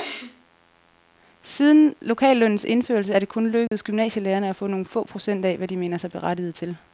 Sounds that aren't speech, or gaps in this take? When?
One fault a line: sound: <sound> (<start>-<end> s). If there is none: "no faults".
sound: dropout (3.7-3.7 s)